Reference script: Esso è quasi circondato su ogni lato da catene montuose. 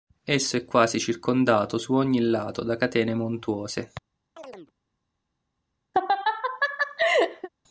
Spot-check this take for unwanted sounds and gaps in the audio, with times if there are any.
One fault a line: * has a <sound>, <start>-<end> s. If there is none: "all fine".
* has a chirp, 4.4-4.7 s
* has a laugh, 5.9-7.5 s